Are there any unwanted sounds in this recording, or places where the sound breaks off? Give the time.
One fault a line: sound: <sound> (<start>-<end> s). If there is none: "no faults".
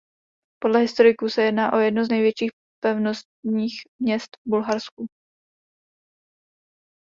no faults